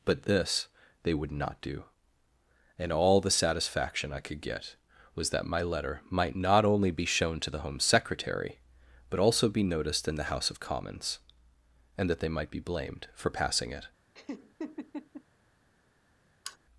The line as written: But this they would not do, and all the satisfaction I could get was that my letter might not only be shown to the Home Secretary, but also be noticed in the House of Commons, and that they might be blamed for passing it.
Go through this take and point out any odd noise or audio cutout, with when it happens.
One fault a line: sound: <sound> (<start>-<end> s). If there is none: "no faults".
sound: laugh (14.1-15.2 s)
sound: sigh (16.5-16.6 s)